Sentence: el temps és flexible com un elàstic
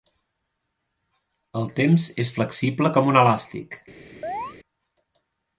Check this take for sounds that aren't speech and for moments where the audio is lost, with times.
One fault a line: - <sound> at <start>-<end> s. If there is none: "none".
- chirp at 4.2-4.6 s